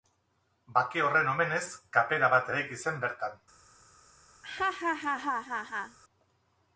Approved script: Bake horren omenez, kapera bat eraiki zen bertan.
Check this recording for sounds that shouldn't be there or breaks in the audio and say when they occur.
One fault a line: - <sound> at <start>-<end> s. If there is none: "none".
- laugh at 4.4-6.0 s